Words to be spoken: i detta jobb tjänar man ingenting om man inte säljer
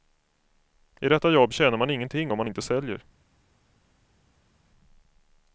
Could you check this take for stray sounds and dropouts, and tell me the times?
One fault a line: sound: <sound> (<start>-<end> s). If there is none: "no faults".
no faults